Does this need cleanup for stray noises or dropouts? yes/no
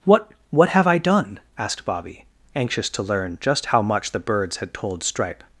no